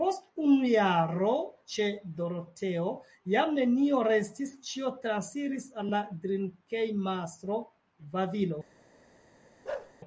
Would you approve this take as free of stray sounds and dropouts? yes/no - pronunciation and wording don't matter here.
no